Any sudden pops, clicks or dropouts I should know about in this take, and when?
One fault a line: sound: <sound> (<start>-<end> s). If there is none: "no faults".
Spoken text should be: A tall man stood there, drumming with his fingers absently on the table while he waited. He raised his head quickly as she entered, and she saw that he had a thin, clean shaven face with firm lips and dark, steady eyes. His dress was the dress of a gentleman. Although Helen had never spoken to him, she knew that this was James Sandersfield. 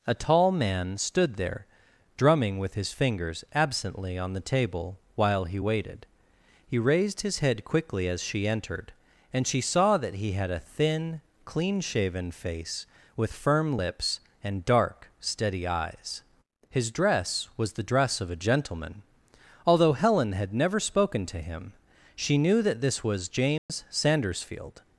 sound: dropout (23.6-23.7 s)